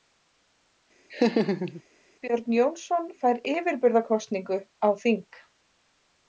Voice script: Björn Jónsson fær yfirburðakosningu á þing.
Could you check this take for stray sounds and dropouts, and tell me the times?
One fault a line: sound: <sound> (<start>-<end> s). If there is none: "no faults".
sound: laugh (1.1-1.8 s)